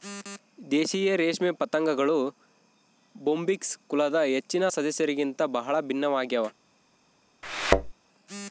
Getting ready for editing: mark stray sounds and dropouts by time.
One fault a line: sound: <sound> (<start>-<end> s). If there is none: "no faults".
sound: thud (7.4-7.9 s)